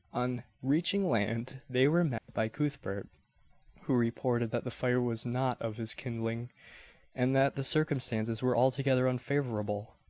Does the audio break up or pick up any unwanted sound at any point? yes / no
yes